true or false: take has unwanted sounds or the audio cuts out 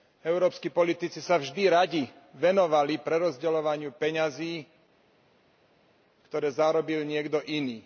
false